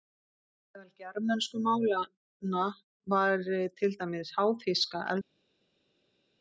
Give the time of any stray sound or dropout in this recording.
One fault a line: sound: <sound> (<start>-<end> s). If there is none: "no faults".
no faults